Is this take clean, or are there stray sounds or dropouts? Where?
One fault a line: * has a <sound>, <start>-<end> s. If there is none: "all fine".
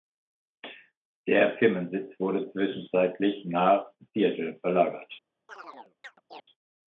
* has a chirp, 5.5-6.4 s